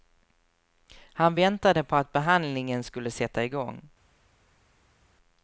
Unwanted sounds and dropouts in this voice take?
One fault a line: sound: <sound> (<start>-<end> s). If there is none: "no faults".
no faults